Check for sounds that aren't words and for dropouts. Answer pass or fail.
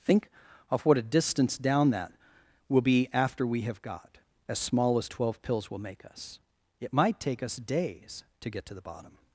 pass